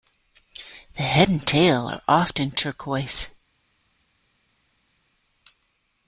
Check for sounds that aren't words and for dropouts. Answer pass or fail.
pass